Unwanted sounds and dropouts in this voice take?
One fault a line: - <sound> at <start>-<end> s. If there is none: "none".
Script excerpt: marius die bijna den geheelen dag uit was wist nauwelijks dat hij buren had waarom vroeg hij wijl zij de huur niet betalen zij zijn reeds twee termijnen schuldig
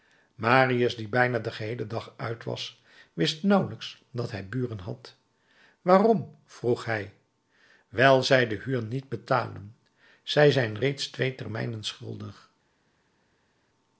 none